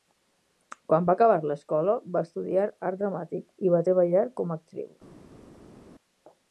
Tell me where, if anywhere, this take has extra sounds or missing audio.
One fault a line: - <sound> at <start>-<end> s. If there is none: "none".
none